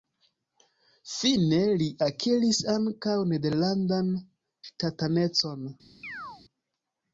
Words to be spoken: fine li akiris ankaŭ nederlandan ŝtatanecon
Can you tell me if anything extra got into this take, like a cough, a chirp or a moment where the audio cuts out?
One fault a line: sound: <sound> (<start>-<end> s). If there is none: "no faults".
sound: chirp (6.0-6.4 s)